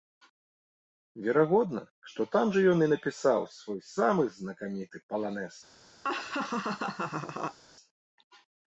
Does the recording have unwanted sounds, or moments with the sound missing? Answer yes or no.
yes